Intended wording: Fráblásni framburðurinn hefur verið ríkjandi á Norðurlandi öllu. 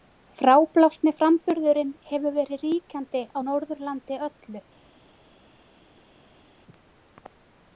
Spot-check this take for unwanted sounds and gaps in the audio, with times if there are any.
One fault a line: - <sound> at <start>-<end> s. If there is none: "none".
none